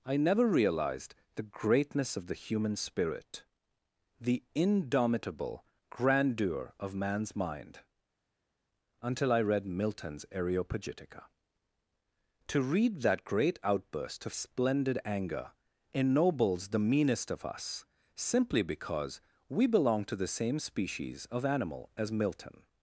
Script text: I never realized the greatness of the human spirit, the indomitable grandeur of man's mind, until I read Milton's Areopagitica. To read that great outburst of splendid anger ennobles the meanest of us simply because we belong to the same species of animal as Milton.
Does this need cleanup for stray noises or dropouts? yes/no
no